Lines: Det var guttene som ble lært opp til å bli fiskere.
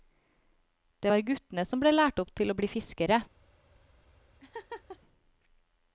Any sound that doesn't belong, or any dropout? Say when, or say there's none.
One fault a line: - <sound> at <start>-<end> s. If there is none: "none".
- laugh at 4.4-5.0 s